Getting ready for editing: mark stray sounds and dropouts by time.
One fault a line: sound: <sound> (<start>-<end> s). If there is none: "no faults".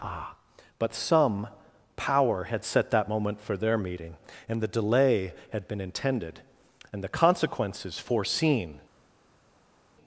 no faults